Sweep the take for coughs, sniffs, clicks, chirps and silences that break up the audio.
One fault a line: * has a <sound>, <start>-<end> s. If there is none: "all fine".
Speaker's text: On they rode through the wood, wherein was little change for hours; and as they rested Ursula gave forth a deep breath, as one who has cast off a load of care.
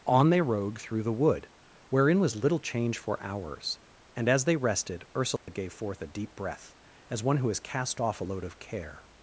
* has a dropout, 5.4-5.5 s